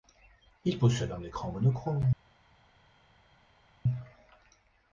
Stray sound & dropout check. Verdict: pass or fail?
pass